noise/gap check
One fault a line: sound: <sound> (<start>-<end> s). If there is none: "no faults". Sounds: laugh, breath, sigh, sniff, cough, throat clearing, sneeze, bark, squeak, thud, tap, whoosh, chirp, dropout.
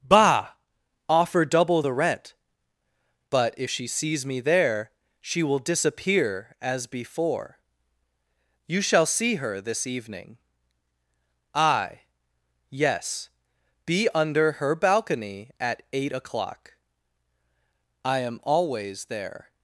no faults